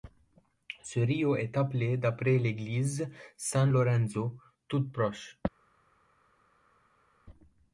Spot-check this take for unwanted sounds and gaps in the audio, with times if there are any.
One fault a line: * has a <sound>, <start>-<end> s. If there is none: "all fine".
all fine